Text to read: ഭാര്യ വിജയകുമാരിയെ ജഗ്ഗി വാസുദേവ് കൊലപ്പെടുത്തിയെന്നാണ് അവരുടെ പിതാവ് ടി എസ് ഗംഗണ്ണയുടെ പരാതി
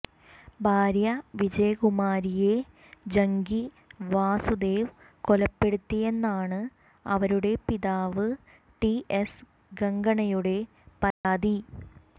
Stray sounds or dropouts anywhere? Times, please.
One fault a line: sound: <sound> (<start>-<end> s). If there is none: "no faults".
sound: dropout (11.1-11.2 s)